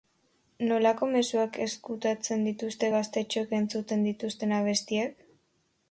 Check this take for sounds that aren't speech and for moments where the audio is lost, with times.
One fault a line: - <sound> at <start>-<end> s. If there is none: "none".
none